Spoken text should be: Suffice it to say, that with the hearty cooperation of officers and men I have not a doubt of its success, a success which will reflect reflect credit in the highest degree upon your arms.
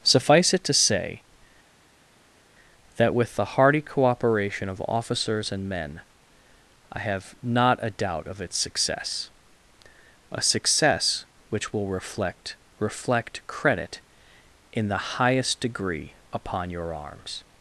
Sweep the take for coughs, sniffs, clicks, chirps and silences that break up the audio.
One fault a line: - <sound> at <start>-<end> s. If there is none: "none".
none